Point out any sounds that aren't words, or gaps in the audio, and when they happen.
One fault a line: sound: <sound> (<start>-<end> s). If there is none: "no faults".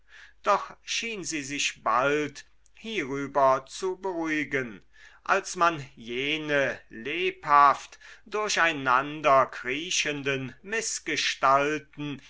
no faults